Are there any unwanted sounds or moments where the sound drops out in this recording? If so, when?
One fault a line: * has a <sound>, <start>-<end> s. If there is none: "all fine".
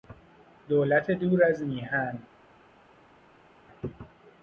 all fine